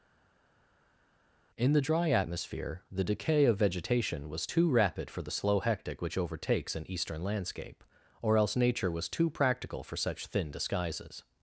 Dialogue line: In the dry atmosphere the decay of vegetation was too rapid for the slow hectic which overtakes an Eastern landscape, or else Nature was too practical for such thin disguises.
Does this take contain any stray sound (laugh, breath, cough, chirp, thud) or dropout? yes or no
no